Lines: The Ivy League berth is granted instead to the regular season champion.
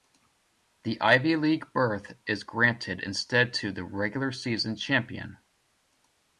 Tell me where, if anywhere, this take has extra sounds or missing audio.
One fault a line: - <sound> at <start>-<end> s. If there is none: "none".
none